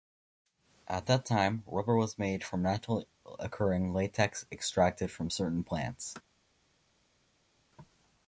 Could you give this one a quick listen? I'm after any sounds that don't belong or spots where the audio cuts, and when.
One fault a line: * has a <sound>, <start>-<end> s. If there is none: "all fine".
all fine